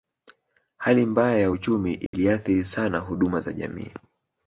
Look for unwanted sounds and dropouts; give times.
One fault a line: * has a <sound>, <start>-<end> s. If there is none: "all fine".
* has a dropout, 2.1-2.1 s